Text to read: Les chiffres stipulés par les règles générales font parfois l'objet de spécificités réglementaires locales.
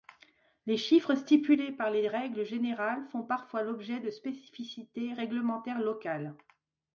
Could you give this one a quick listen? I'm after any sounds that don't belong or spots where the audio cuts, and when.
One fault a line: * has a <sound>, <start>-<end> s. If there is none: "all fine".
all fine